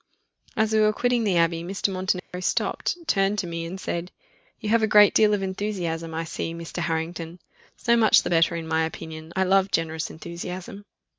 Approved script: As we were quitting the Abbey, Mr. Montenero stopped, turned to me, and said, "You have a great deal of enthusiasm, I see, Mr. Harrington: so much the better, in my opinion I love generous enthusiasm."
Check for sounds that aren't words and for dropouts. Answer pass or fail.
fail